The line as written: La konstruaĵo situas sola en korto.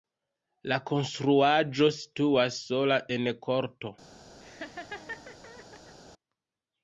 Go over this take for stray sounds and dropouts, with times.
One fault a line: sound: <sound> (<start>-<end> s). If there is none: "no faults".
sound: laugh (4.4-6.0 s)